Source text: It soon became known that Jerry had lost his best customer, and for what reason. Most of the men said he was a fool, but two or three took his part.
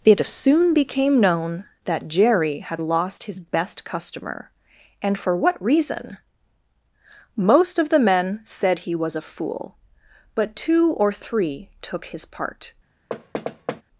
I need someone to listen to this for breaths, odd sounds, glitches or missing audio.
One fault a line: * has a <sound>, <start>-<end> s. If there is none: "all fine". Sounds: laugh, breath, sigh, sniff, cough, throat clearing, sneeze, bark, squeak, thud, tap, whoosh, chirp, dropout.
* has a thud, 13.1-13.8 s